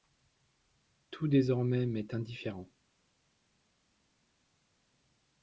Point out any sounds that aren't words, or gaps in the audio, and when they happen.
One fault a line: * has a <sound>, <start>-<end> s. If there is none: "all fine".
all fine